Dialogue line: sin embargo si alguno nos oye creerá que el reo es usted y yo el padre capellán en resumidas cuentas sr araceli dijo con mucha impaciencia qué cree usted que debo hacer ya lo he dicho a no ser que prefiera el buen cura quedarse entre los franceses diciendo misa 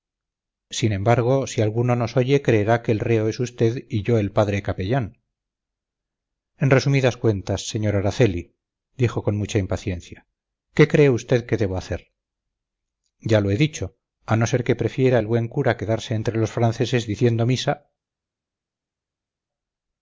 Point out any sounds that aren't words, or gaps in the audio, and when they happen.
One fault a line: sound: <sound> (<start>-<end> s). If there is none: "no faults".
no faults